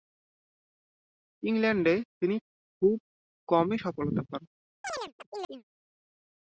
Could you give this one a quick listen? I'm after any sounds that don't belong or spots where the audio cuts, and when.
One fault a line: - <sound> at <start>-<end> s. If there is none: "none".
- chirp at 4.8-5.6 s